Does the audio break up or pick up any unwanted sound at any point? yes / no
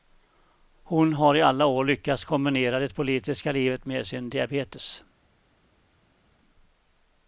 no